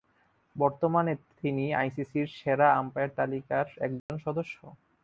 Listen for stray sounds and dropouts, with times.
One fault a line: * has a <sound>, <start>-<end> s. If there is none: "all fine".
* has a dropout, 4.0-4.1 s